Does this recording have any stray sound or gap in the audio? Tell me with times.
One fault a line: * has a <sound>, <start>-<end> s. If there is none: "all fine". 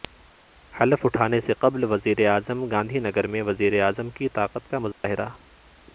* has a dropout, 4.9-5.0 s